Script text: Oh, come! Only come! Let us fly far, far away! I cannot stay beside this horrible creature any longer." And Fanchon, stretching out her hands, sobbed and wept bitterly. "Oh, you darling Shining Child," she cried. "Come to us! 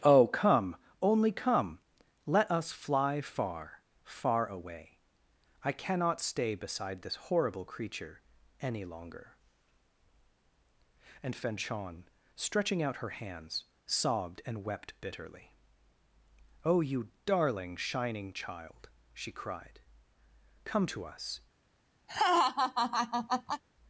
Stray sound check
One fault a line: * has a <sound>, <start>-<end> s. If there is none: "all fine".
* has a laugh, 22.1-23.6 s